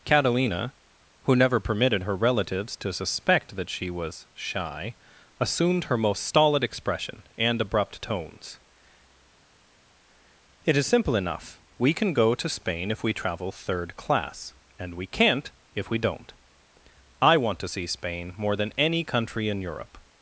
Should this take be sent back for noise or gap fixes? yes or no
no